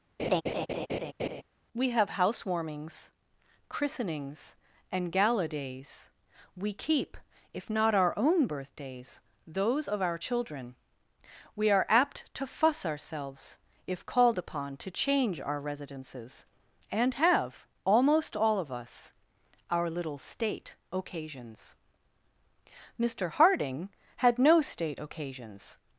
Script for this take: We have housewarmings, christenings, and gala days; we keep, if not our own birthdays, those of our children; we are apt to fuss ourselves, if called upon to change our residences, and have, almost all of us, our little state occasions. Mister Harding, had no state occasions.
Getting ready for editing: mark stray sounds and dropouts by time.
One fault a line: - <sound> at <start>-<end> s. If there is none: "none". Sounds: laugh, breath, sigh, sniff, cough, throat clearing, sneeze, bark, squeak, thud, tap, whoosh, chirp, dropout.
- laugh at 0.2-1.4 s